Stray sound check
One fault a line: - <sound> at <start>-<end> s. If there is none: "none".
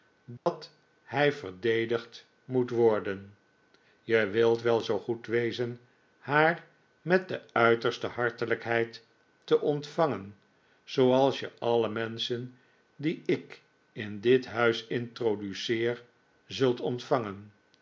- dropout at 0.4-0.5 s